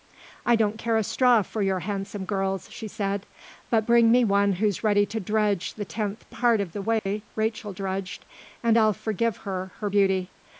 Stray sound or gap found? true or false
true